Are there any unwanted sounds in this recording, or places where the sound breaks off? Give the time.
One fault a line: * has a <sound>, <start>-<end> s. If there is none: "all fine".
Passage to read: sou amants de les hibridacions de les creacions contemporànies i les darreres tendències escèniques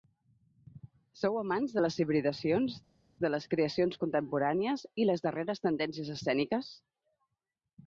all fine